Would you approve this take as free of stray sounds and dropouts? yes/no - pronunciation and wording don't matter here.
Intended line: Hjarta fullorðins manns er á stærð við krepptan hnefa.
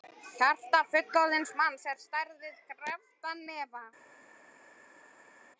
yes